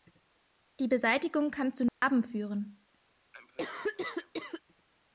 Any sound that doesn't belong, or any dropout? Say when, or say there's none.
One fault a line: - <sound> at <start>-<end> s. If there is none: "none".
- dropout at 1.9-2.0 s
- cough at 3.3-4.6 s